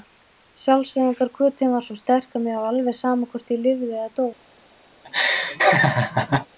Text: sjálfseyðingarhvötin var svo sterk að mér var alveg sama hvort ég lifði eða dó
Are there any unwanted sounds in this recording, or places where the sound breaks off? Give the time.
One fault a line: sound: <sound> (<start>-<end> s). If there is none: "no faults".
sound: laugh (5.0-6.5 s)